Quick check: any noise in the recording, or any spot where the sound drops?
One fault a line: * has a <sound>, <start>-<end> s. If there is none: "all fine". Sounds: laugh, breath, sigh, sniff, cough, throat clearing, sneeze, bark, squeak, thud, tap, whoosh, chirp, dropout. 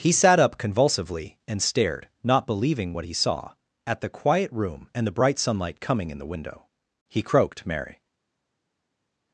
all fine